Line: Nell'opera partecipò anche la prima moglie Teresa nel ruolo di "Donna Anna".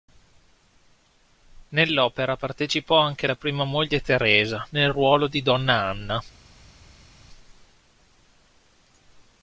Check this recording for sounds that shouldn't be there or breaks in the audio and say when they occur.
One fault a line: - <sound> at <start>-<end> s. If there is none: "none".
none